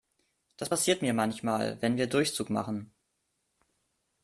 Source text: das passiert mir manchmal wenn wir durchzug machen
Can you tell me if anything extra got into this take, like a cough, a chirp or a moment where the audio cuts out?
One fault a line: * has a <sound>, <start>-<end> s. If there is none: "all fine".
all fine